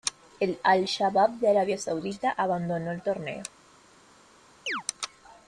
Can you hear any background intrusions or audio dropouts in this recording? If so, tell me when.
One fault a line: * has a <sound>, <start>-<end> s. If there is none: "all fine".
* has a chirp, 4.7-4.8 s